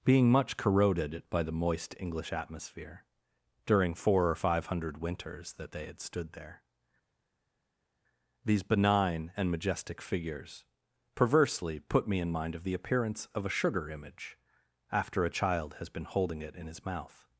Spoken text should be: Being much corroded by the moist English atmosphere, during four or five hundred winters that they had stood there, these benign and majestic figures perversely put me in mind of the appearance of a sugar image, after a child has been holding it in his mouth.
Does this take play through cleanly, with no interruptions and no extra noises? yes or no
yes